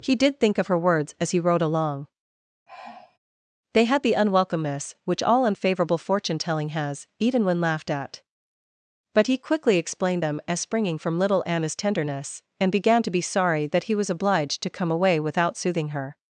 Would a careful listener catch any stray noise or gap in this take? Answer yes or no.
yes